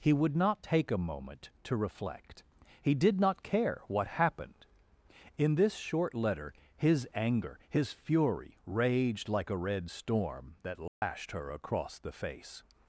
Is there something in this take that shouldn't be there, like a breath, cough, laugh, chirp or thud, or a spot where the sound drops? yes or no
yes